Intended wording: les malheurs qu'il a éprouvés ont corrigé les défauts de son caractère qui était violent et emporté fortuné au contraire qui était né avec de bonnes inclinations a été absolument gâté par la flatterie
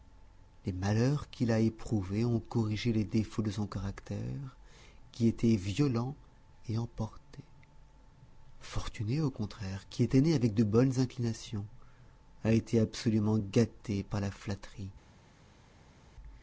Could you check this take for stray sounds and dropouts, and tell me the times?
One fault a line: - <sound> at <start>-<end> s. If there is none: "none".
none